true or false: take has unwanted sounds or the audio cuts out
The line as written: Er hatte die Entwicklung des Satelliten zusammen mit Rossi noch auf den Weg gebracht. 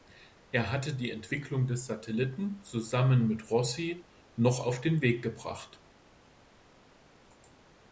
false